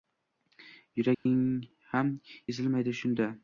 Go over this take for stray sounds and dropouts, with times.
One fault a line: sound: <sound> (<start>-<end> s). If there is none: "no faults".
sound: dropout (1.1-1.3 s)